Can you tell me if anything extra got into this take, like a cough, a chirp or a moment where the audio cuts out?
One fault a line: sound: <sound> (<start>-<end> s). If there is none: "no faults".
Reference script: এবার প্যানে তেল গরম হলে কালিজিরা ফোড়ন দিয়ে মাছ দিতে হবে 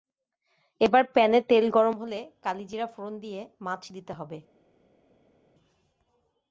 no faults